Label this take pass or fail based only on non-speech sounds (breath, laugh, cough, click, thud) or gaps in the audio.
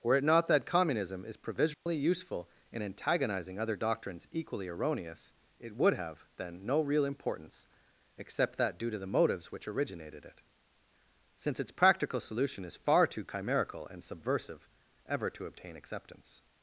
fail